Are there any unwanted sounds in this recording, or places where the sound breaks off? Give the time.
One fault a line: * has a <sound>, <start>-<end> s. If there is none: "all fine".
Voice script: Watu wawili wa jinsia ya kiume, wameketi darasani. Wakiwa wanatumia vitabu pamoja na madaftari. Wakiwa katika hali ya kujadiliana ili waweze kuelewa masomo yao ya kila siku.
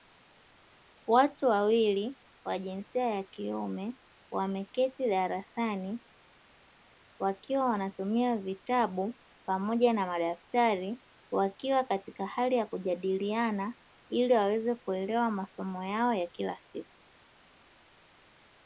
all fine